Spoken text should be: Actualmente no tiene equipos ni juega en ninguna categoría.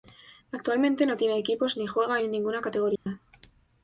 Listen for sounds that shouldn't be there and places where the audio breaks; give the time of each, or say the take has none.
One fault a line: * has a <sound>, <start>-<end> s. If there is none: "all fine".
* has a dropout, 3.0-3.1 s